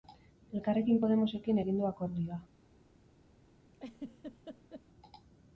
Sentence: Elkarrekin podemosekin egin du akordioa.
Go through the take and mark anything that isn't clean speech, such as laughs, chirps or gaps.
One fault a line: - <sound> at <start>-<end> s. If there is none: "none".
- laugh at 3.7-4.8 s